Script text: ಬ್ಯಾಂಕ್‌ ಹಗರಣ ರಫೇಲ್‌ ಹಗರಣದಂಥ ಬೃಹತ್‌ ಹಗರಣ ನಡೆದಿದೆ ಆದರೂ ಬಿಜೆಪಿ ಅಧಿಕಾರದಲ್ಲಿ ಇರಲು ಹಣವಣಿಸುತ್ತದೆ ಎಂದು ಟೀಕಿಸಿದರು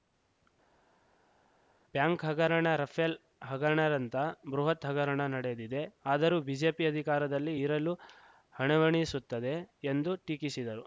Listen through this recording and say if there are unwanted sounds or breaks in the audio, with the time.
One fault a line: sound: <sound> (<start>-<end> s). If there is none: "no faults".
no faults